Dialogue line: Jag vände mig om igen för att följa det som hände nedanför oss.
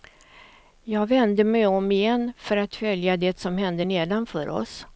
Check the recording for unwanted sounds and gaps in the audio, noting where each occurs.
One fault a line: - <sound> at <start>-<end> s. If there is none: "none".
none